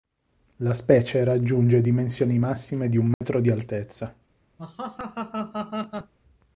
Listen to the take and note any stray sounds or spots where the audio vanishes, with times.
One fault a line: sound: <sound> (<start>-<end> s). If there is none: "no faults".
sound: dropout (3.1-3.2 s)
sound: laugh (4.6-6.1 s)